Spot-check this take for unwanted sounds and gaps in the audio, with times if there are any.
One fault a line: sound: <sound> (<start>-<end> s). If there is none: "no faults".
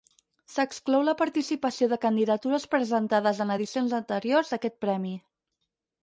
no faults